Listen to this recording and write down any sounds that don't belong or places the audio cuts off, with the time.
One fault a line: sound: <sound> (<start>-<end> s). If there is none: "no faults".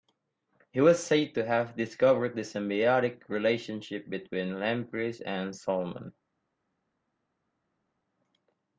no faults